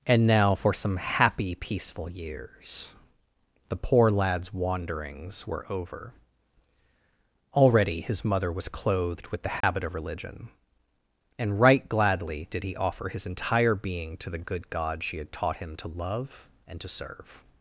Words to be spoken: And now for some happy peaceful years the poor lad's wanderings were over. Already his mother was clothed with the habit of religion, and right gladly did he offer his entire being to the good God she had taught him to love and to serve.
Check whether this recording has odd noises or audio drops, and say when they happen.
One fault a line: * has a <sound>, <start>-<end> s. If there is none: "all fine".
* has a dropout, 9.6-9.6 s